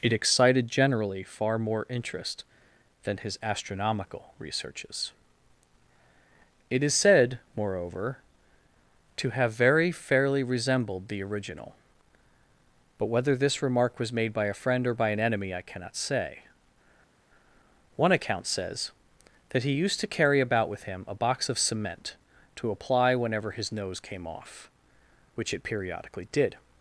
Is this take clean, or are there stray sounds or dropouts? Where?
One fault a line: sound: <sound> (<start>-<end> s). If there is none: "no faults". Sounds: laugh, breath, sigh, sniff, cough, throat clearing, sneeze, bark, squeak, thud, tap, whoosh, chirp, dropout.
no faults